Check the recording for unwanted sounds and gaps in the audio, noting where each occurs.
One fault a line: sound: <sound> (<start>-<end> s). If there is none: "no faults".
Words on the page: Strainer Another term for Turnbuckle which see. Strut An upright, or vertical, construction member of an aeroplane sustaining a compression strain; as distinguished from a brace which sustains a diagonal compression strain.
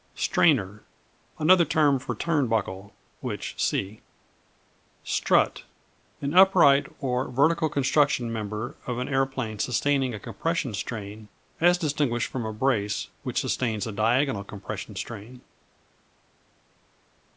no faults